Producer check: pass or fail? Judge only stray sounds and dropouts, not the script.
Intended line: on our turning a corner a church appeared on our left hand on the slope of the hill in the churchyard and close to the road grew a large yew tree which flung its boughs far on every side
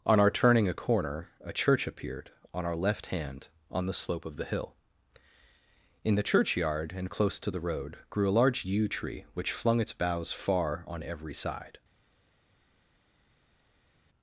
pass